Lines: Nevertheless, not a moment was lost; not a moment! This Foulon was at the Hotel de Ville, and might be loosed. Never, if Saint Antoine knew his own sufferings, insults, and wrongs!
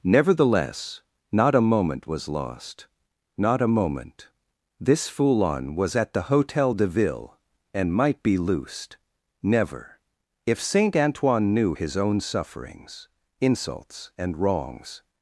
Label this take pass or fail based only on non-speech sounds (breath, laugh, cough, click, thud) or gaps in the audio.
pass